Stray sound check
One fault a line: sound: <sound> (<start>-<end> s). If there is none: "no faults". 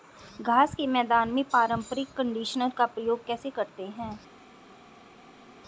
no faults